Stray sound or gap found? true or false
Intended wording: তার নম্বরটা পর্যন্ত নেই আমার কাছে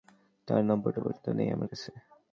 false